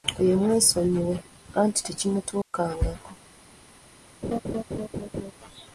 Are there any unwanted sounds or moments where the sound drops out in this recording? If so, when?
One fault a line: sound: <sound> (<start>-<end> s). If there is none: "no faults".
sound: dropout (2.4-2.5 s)
sound: laugh (4.2-5.3 s)